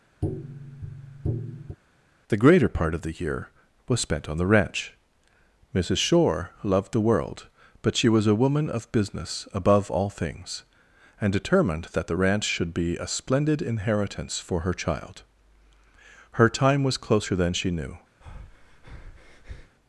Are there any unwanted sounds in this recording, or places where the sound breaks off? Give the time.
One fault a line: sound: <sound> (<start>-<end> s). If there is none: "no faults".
sound: tap (0.2-1.8 s)
sound: breath (18.2-19.8 s)